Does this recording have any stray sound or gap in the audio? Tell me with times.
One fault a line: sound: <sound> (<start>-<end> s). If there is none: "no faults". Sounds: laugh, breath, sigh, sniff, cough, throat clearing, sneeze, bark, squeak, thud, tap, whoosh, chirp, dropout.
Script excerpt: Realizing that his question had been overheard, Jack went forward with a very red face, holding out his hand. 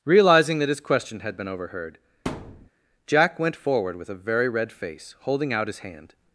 sound: thud (2.3-2.7 s)